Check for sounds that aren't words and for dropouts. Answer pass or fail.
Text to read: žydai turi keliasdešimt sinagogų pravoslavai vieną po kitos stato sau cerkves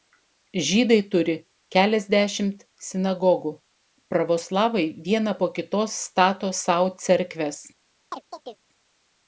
fail